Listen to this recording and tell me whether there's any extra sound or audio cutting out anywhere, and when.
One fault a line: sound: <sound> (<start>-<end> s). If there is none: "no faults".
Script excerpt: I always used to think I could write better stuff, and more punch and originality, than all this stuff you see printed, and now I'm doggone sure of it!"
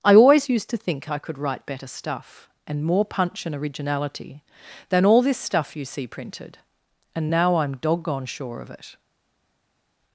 no faults